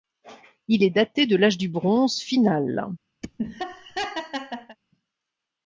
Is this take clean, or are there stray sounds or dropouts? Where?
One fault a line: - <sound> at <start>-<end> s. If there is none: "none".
- laugh at 3.2-4.8 s